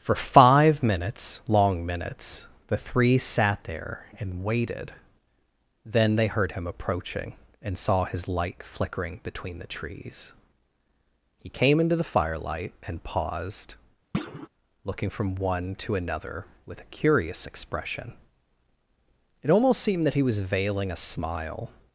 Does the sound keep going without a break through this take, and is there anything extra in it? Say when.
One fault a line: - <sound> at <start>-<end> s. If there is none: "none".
- thud at 14.1-14.5 s